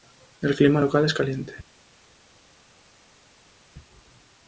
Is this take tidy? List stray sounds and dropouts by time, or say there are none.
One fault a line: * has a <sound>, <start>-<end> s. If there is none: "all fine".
all fine